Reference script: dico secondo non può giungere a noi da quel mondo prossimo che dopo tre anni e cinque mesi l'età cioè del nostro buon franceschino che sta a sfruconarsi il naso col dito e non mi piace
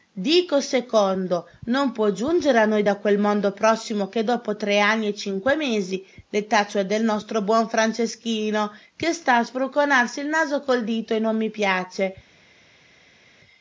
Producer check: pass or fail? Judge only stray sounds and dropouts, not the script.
pass